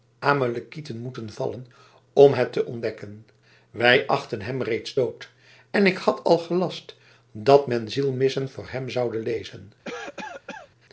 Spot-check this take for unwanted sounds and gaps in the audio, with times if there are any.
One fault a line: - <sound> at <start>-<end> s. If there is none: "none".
- cough at 9.8-10.7 s